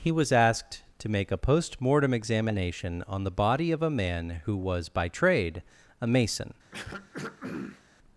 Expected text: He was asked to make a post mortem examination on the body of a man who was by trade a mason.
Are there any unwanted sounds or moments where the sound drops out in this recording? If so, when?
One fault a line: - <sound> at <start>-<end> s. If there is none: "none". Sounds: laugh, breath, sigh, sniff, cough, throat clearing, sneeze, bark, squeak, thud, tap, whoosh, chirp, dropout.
- throat clearing at 6.7-7.8 s